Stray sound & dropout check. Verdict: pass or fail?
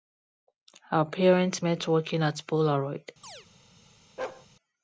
fail